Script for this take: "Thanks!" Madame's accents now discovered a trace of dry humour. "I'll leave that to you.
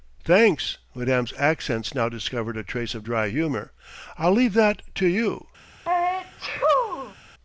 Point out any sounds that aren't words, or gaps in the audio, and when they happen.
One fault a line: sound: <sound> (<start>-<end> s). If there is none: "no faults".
sound: sneeze (5.8-7.1 s)